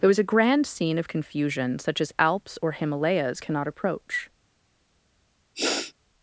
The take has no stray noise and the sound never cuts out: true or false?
false